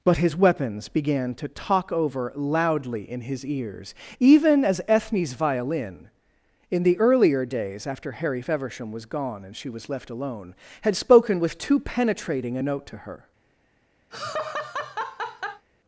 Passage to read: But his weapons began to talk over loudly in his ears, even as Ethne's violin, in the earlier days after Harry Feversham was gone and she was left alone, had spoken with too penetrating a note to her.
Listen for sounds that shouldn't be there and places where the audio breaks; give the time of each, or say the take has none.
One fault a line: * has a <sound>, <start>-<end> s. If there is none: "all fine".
* has a laugh, 14.1-15.7 s